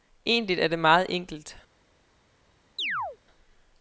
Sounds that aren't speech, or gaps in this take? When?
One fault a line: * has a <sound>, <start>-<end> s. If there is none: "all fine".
* has a chirp, 2.8-3.2 s